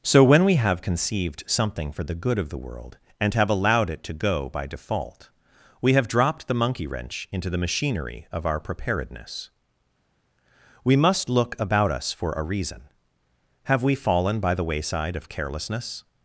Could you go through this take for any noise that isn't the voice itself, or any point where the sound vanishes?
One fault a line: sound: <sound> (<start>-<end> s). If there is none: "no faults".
no faults